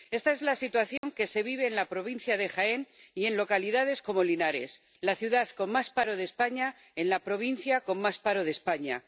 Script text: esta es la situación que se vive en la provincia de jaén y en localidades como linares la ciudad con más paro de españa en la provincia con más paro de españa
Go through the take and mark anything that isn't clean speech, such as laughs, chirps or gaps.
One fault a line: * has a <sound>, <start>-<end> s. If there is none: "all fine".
* has a dropout, 1.0-1.0 s